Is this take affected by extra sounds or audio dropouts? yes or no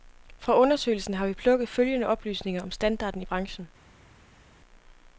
no